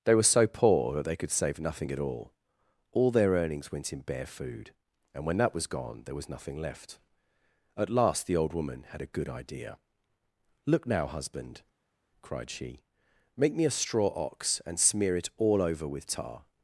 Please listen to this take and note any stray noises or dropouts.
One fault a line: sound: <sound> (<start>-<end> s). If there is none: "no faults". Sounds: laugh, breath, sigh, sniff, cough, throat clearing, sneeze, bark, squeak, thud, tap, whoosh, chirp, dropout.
no faults